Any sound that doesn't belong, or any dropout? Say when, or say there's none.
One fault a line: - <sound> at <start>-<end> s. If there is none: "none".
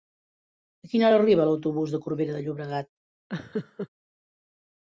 - laugh at 3.3-3.9 s